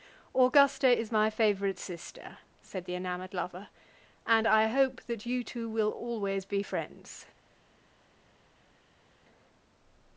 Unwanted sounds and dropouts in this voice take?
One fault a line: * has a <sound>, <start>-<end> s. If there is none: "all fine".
all fine